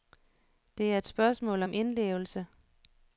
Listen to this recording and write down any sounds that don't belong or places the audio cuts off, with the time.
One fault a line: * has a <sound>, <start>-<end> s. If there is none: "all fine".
all fine